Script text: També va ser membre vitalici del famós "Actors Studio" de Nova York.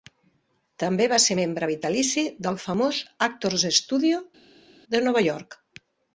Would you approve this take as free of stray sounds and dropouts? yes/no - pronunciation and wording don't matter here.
yes